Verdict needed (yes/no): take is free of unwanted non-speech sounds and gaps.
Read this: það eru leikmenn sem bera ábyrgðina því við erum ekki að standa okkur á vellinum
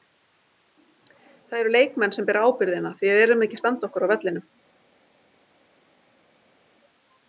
yes